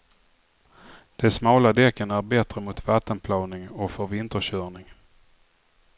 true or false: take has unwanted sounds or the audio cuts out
false